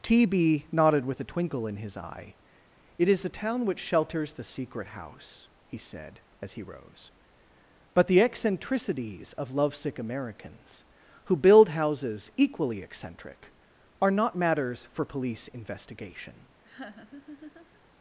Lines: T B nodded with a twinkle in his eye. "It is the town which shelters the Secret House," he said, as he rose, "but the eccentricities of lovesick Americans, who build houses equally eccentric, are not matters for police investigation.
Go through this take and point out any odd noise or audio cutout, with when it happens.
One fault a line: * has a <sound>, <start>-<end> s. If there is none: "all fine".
* has a laugh, 16.6-17.8 s